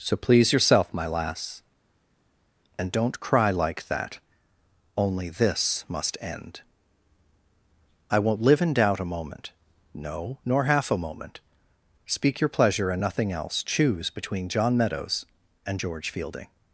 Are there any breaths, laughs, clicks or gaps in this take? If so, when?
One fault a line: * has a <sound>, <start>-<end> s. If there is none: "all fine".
all fine